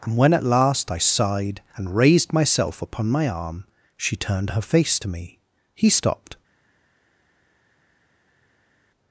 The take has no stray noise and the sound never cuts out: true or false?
true